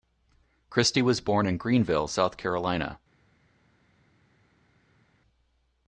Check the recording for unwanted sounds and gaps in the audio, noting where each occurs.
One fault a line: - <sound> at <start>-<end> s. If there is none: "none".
none